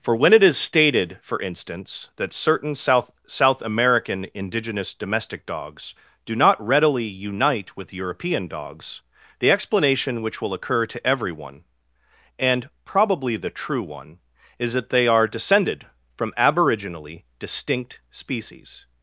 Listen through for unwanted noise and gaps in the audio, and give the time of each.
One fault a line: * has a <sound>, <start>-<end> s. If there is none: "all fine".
all fine